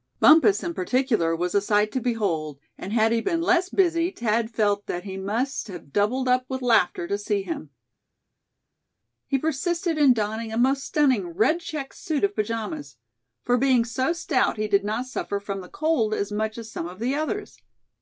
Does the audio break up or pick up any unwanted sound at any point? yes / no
no